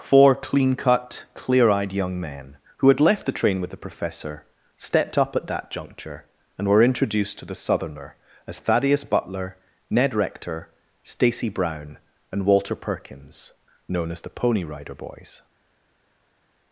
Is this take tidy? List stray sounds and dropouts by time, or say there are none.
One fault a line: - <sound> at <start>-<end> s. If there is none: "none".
none